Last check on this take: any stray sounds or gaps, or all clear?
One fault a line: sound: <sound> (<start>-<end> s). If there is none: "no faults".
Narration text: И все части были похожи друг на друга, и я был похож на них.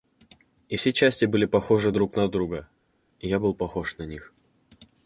no faults